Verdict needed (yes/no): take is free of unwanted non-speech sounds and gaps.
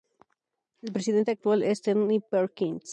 yes